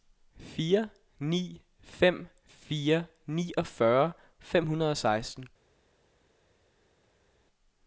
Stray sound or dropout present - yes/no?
no